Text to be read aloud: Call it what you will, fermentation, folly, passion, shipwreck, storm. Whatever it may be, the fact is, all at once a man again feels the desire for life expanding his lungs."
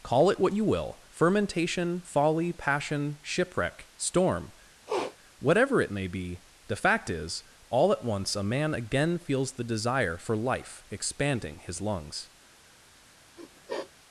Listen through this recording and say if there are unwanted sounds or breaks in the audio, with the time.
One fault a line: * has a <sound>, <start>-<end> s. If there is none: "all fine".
* has a sniff, 4.9-5.2 s
* has a sniff, 13.4-13.9 s